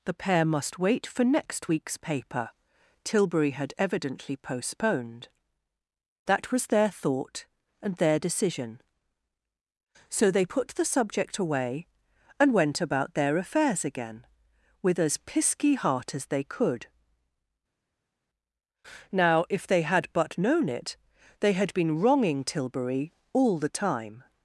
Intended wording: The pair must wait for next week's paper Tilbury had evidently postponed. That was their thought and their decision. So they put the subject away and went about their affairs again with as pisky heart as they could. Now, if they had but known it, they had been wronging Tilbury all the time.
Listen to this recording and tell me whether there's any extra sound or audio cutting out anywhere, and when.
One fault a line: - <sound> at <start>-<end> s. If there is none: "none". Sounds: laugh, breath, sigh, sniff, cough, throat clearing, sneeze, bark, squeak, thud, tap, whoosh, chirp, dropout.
none